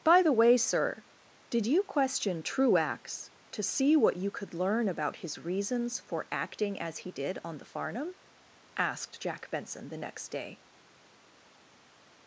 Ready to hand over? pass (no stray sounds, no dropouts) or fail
pass